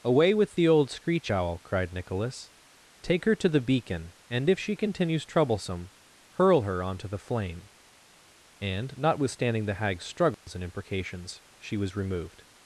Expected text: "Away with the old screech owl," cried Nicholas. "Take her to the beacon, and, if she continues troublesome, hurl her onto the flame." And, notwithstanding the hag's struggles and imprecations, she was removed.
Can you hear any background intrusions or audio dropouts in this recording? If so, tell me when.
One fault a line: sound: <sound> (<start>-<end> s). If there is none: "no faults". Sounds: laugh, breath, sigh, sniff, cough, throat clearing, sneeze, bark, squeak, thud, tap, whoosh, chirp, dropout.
sound: dropout (10.3-10.5 s)